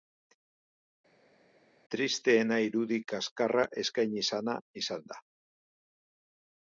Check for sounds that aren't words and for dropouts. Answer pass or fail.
pass